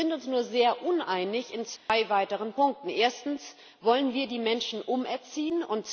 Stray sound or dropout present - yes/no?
yes